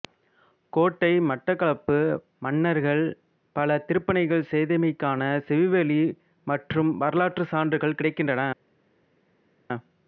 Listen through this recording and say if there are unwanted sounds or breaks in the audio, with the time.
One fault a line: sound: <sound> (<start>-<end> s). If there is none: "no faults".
no faults